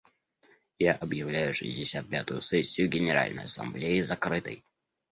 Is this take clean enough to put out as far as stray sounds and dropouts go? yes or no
yes